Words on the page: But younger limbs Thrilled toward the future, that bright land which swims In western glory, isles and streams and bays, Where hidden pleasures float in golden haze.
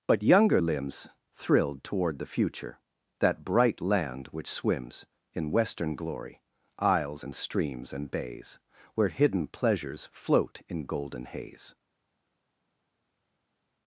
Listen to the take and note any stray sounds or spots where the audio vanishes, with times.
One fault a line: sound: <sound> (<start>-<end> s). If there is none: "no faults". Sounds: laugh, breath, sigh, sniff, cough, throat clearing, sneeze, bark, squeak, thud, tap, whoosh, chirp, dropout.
no faults